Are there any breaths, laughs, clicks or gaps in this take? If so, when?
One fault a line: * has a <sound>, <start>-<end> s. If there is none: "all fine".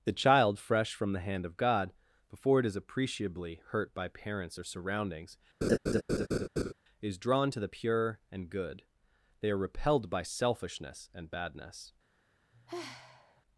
* has a laugh, 5.6-6.7 s
* has a sigh, 12.5-13.4 s